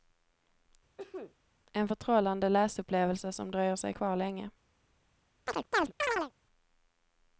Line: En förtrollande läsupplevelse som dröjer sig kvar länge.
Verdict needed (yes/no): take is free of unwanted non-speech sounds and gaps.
no